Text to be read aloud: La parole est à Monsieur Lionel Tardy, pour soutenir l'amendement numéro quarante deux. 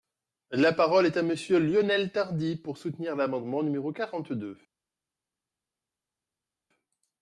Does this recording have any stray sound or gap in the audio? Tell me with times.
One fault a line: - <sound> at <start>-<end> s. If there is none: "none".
none